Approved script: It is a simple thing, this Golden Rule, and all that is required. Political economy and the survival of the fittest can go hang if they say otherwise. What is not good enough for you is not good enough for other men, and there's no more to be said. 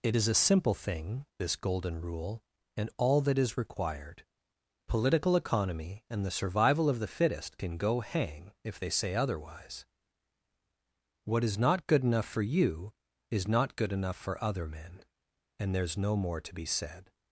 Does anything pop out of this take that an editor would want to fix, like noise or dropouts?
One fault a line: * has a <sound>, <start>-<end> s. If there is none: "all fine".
all fine